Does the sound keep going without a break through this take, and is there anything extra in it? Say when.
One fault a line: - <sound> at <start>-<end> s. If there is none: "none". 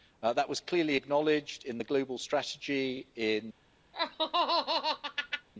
- laugh at 3.9-5.5 s